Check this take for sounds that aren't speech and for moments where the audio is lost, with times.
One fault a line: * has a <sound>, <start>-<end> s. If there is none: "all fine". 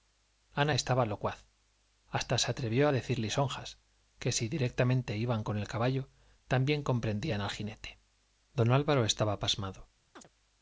* has a chirp, 10.2-10.3 s